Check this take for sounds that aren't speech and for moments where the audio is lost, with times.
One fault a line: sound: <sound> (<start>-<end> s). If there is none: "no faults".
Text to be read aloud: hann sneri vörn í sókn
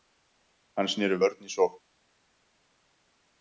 no faults